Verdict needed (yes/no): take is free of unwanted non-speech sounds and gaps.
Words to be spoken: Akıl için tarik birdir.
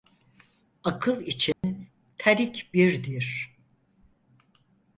no